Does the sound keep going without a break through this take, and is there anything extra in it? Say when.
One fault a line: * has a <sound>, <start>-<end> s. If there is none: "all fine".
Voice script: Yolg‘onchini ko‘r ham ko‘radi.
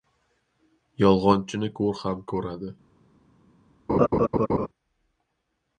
* has a laugh, 3.9-4.7 s